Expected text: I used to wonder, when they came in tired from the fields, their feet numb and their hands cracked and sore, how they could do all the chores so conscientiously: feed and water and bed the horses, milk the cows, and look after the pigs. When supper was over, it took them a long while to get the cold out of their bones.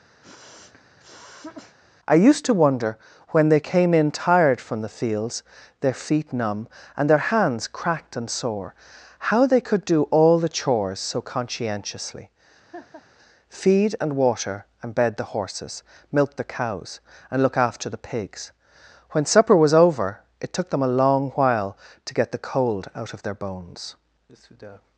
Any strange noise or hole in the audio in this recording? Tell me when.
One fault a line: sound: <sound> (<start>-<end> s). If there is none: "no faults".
sound: sniff (0.2-1.8 s)
sound: laugh (12.7-13.0 s)